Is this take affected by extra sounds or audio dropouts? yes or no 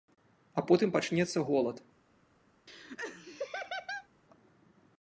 yes